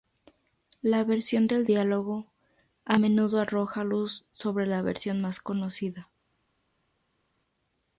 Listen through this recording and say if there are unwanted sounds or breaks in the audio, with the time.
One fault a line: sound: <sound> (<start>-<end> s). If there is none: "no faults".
no faults